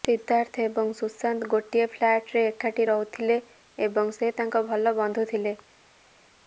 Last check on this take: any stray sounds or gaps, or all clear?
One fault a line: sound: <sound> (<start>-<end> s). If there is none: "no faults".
no faults